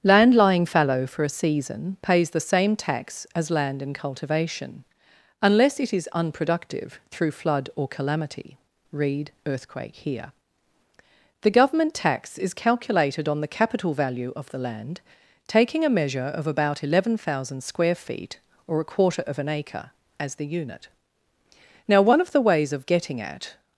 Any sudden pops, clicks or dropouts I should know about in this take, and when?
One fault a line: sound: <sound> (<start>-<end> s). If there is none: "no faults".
no faults